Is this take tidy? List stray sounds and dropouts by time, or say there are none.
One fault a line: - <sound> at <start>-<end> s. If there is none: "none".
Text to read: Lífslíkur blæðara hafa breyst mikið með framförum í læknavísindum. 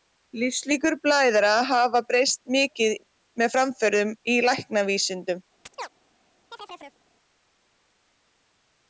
- chirp at 5.7-5.9 s
- chirp at 6.5-7.0 s